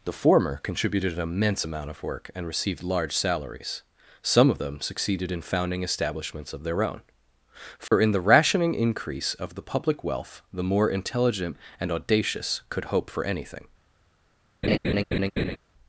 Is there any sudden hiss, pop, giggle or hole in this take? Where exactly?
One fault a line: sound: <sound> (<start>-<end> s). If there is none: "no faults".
sound: dropout (7.9-7.9 s)
sound: laugh (14.6-15.6 s)